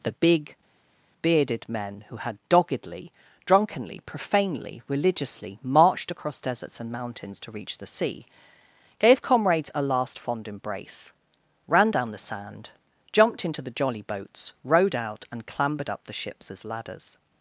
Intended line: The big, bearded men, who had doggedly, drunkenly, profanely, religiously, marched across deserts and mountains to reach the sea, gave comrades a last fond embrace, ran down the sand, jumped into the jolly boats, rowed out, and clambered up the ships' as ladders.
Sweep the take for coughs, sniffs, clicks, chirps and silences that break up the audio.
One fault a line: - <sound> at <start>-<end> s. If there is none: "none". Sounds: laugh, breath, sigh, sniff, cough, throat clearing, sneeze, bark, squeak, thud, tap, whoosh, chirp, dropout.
none